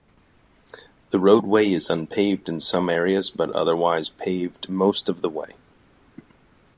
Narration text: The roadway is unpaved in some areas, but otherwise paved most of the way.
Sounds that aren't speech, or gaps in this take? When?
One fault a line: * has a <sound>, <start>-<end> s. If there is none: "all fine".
all fine